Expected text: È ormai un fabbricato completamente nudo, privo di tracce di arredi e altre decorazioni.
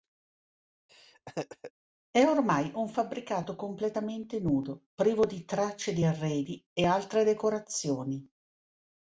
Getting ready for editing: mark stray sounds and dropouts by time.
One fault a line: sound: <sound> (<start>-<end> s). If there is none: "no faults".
sound: laugh (0.9-1.7 s)